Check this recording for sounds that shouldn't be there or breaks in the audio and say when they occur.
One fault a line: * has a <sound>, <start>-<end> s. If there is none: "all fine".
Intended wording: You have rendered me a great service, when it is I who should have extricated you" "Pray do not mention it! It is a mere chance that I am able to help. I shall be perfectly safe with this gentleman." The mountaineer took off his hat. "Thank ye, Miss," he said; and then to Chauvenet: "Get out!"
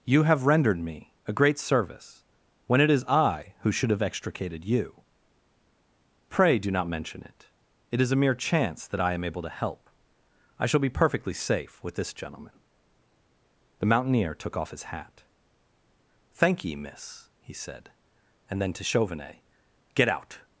all fine